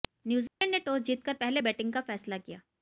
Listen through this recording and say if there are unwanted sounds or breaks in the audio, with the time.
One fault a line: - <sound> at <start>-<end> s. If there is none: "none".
- dropout at 0.5-0.6 s